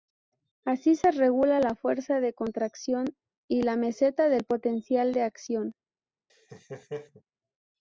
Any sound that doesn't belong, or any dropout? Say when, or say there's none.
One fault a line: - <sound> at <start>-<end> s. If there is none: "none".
- laugh at 6.3-7.2 s